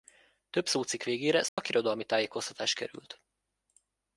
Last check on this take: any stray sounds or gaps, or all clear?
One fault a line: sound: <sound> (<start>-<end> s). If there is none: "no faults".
sound: dropout (1.5-1.6 s)